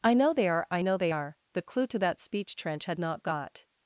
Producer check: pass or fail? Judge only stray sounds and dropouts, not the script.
pass